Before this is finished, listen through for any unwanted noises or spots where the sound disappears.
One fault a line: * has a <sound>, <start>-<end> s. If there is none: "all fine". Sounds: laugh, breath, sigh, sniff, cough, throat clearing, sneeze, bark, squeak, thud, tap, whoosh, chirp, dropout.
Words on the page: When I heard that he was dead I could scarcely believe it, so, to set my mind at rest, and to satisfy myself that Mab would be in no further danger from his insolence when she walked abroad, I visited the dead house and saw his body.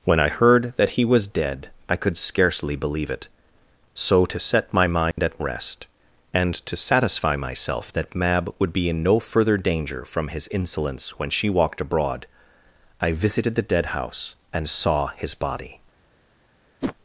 * has a dropout, 5.1-5.2 s
* has a whoosh, 16.8-17.0 s